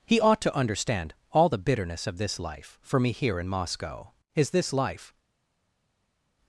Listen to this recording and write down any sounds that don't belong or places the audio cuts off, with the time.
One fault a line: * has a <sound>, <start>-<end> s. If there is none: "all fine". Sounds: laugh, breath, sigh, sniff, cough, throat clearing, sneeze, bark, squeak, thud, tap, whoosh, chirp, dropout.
all fine